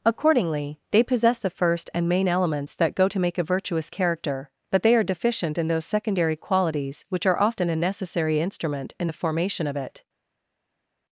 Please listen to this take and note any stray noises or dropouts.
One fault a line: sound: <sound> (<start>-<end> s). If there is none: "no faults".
no faults